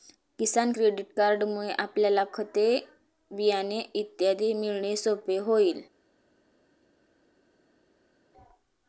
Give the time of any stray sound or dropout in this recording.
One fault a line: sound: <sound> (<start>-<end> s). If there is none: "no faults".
no faults